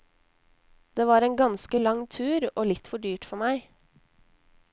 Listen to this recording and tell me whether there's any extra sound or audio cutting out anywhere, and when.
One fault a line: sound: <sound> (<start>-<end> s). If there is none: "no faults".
no faults